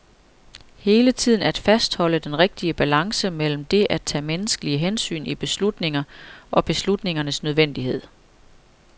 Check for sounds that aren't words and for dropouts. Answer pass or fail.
pass